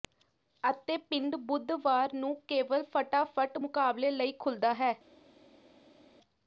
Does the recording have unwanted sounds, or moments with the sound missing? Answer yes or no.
no